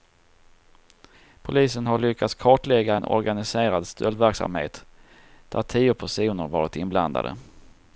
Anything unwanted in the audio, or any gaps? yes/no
no